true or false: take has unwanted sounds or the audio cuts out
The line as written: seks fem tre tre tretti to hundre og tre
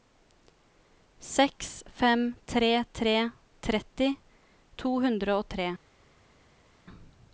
false